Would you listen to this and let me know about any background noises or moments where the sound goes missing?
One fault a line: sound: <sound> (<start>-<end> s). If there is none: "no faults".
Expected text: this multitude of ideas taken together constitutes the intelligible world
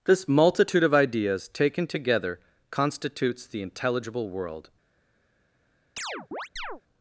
sound: chirp (6.0-6.8 s)